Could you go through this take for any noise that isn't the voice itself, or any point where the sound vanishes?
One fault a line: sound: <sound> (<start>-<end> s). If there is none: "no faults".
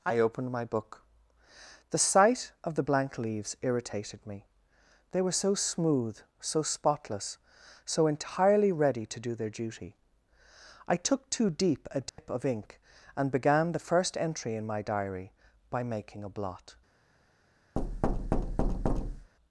sound: dropout (12.1-12.2 s)
sound: thud (17.8-19.3 s)